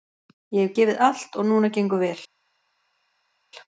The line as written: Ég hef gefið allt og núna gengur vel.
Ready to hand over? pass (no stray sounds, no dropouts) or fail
pass